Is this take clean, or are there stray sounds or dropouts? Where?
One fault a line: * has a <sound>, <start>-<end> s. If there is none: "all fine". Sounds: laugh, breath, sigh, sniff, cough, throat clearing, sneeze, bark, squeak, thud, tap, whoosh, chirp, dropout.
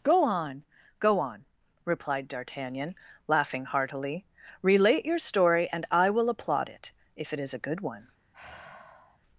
* has a sigh, 8.3-9.2 s